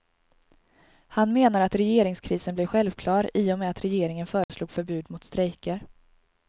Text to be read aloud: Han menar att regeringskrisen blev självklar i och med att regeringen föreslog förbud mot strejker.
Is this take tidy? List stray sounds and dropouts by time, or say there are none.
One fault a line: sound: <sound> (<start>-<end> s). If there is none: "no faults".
sound: dropout (4.4-4.5 s)